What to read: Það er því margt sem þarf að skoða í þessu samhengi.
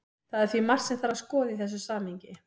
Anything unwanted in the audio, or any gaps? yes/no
no